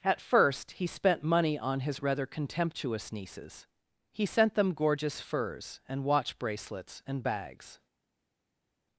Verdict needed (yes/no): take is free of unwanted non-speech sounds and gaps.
yes